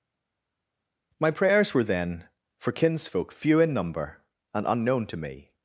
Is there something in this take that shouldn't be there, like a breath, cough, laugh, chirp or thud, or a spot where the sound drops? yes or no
no